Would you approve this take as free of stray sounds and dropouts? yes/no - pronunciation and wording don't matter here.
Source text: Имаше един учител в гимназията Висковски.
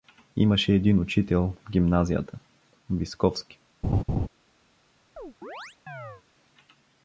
no